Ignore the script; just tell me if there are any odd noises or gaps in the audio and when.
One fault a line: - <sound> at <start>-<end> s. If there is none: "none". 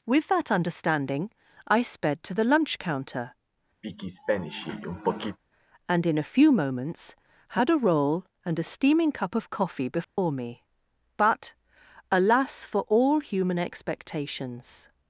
- throat clearing at 3.8-5.4 s
- dropout at 10.0-10.2 s